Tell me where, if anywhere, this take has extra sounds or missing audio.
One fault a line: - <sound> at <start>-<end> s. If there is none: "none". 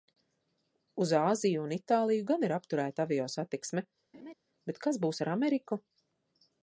- laugh at 4.1-4.3 s